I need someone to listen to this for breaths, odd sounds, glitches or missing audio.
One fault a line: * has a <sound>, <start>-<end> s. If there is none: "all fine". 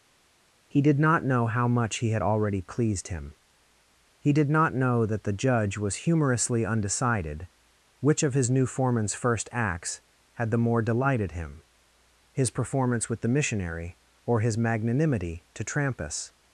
all fine